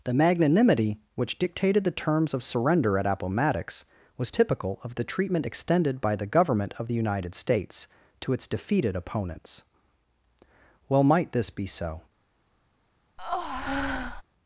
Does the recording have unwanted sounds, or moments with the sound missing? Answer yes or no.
yes